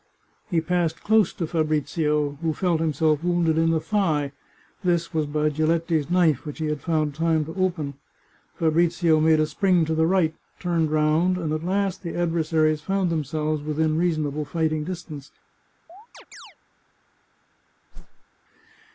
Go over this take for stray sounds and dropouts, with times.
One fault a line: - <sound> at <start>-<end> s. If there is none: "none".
- chirp at 15.9-16.6 s
- whoosh at 17.9-18.2 s